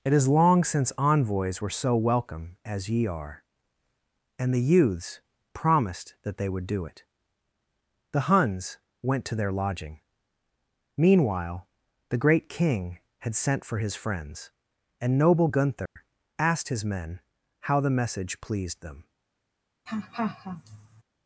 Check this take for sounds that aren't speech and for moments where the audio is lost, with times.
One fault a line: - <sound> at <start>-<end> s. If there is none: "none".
- dropout at 15.9-16.0 s
- laugh at 19.9-21.0 s